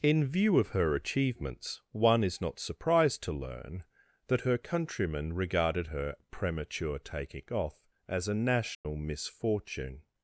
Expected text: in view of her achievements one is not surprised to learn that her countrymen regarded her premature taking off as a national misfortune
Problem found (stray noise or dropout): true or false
true